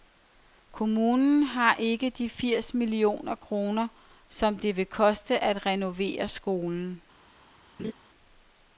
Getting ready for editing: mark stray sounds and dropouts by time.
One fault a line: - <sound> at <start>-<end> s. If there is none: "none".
- laugh at 7.8-7.9 s